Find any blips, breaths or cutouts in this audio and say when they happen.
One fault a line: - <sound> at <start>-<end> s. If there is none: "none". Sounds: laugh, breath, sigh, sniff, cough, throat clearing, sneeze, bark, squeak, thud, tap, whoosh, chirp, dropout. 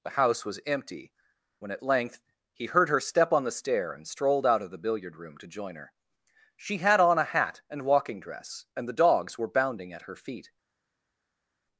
none